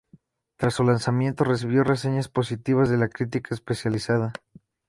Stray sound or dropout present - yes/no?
no